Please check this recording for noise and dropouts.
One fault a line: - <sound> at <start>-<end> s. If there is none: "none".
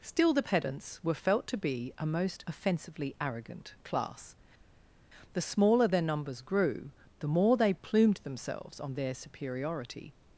none